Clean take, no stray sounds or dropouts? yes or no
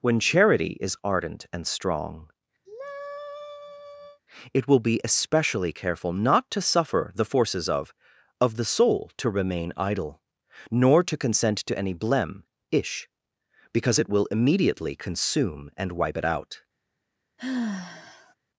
no